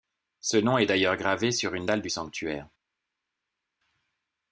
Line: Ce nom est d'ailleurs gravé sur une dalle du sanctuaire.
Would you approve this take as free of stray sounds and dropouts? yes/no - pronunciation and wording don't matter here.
yes